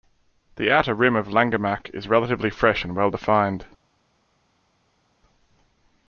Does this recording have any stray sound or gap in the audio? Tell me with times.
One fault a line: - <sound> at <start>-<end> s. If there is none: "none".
none